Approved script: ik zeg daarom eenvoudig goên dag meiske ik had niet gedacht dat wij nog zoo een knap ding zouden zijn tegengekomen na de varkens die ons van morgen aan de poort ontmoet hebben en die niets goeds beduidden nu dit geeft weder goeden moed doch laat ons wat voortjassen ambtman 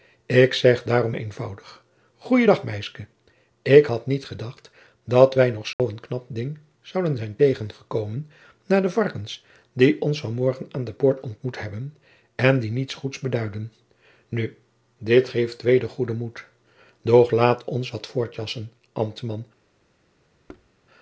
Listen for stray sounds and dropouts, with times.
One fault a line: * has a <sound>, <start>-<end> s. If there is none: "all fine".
* has a dropout, 5.7-5.8 s
* has a thud, 20.5-20.7 s